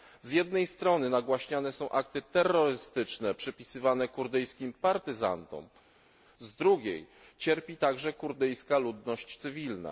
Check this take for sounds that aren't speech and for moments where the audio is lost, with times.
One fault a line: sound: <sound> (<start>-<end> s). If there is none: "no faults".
no faults